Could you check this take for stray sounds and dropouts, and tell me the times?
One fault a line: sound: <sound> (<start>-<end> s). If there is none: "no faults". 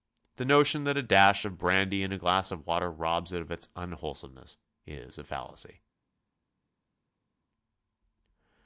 no faults